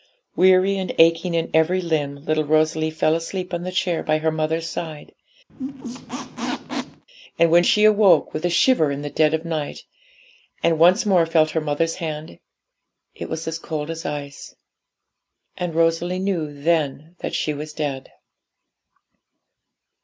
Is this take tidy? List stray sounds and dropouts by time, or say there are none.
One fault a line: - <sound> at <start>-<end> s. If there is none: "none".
- squeak at 5.5-7.0 s